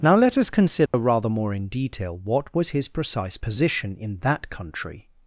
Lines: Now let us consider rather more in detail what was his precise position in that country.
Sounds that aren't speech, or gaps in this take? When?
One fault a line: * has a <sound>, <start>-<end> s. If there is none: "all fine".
* has a dropout, 0.9-0.9 s